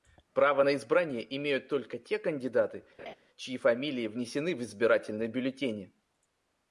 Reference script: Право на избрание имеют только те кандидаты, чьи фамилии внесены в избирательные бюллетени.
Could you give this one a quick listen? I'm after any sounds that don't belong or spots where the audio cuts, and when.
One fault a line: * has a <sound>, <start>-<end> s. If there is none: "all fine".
* has a laugh, 3.0-3.1 s